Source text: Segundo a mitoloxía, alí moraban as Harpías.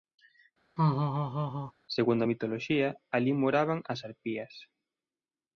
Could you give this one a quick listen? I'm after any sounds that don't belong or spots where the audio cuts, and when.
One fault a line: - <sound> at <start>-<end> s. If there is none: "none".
- laugh at 0.8-1.7 s